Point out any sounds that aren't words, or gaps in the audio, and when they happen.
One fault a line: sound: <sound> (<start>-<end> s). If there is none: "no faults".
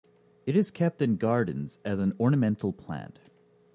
no faults